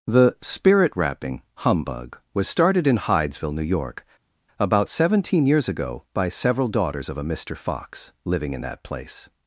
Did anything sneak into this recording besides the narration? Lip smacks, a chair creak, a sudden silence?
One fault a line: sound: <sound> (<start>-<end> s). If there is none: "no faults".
no faults